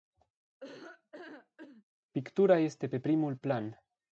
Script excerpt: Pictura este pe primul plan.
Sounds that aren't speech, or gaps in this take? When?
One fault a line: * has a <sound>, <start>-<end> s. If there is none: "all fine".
* has a laugh, 0.6-1.8 s